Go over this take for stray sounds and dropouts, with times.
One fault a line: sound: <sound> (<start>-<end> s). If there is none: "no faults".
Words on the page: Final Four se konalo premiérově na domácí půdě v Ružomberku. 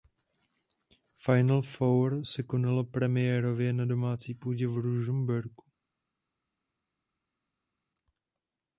no faults